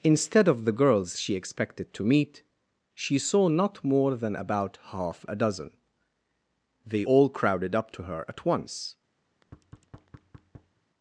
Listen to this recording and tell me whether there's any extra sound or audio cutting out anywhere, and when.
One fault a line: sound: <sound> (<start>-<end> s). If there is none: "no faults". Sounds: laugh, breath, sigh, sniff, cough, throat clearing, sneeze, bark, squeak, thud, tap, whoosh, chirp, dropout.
sound: thud (9.2-10.8 s)